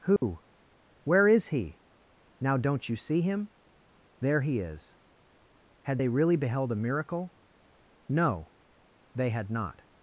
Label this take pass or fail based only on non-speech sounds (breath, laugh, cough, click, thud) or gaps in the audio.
fail